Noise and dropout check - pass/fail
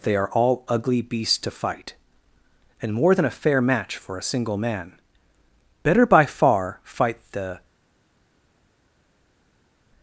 pass